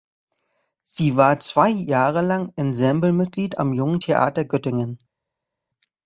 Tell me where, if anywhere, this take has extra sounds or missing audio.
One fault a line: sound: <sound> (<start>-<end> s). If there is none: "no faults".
no faults